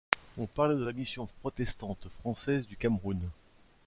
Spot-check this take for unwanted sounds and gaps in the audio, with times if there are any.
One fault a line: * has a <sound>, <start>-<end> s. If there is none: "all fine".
all fine